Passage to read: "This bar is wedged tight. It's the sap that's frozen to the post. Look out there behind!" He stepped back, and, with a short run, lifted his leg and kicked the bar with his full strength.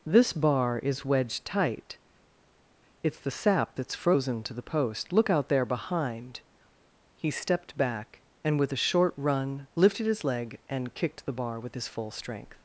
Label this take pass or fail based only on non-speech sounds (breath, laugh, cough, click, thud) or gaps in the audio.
pass